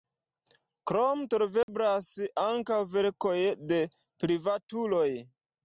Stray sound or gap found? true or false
true